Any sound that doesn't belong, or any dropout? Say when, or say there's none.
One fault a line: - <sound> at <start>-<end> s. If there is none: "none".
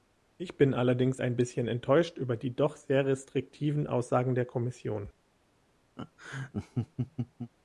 - laugh at 6.0-7.5 s